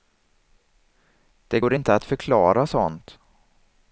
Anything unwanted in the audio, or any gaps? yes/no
no